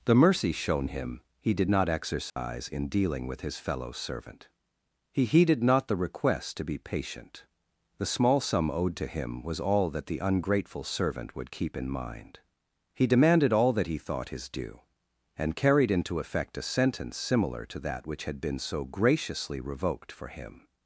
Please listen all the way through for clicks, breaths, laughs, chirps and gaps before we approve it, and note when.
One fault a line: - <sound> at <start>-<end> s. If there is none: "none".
- dropout at 2.3-2.4 s